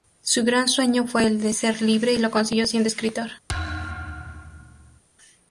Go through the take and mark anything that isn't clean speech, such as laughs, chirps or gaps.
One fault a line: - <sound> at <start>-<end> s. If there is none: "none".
- thud at 3.5-5.0 s